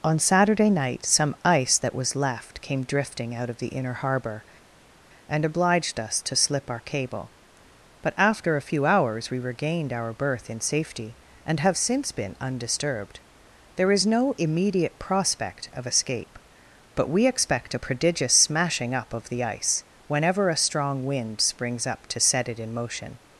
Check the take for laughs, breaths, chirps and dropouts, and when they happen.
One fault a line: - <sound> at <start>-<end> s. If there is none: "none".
none